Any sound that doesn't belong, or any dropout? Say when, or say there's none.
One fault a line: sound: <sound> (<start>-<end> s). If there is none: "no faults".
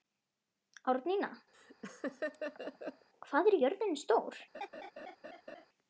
sound: laugh (1.5-3.1 s)
sound: laugh (4.5-5.7 s)